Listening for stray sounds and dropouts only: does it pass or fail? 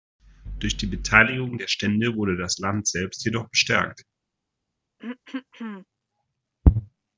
fail